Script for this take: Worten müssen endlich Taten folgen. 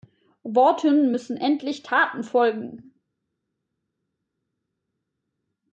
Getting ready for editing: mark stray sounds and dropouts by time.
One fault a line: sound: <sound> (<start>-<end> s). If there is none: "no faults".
no faults